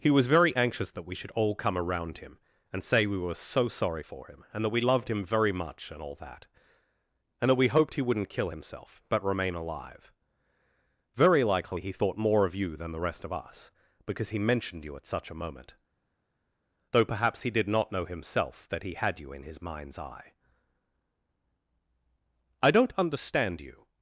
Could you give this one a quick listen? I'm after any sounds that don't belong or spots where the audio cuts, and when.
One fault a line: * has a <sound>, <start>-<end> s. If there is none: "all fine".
all fine